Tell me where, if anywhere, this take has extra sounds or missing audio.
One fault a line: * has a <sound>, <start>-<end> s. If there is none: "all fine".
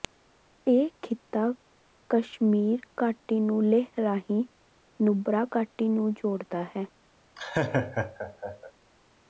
* has a laugh, 7.4-8.7 s